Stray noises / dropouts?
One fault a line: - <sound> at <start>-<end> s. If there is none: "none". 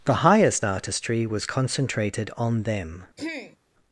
- throat clearing at 3.2-3.6 s